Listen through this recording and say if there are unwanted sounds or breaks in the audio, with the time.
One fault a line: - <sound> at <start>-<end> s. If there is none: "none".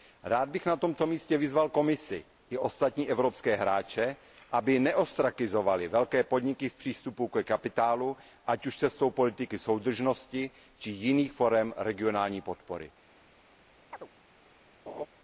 - chirp at 13.9-14.1 s
- laugh at 14.9-15.1 s